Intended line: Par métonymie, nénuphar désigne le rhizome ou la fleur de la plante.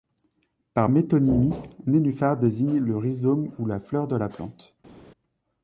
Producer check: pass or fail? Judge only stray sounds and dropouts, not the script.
pass